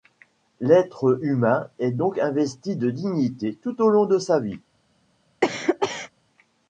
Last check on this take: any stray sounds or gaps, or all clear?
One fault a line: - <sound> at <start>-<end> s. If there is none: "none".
- cough at 5.4-6.1 s